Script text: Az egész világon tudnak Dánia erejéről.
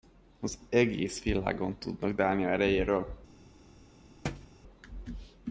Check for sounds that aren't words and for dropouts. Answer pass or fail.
fail